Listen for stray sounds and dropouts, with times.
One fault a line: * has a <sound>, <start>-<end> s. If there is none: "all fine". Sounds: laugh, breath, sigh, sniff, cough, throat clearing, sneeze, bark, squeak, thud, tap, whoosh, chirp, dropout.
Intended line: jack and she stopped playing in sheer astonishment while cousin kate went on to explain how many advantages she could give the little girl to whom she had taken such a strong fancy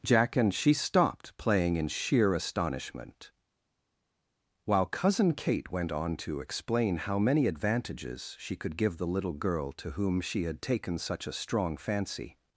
all fine